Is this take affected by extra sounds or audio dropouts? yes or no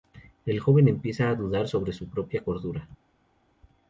no